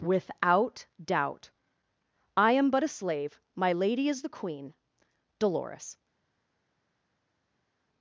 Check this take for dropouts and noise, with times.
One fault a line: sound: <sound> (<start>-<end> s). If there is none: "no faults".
no faults